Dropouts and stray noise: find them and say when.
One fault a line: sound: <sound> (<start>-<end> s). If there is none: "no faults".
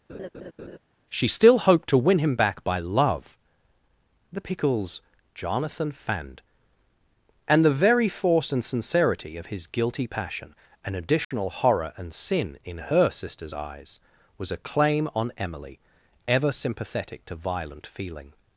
sound: laugh (0.1-0.8 s)
sound: dropout (11.2-11.3 s)